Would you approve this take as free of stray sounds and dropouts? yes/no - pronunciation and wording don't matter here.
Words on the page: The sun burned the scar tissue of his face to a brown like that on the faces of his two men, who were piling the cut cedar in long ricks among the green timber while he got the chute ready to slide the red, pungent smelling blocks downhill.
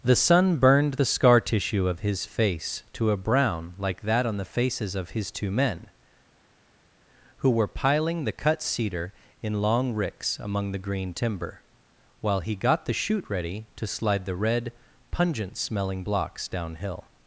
yes